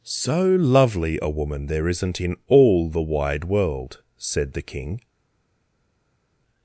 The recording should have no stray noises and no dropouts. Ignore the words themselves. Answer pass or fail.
pass